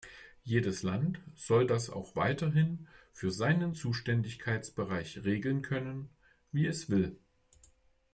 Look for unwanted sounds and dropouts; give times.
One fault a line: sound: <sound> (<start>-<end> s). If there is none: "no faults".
no faults